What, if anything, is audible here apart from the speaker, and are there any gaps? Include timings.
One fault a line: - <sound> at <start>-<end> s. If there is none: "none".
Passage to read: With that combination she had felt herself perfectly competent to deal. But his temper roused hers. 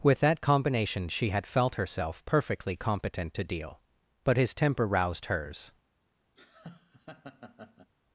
- laugh at 6.4-7.9 s